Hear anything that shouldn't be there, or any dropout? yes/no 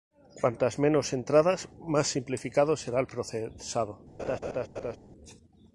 yes